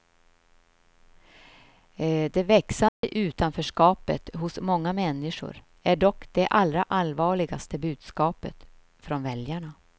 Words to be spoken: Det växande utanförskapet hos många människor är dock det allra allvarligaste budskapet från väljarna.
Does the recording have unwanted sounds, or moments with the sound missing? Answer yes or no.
yes